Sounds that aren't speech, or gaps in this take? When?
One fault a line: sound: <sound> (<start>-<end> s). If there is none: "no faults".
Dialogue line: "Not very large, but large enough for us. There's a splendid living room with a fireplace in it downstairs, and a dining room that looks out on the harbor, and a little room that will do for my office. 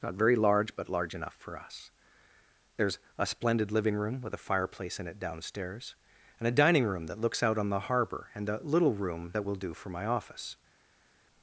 no faults